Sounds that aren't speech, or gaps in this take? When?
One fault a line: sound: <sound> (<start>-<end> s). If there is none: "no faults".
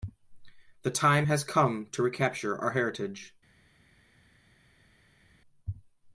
no faults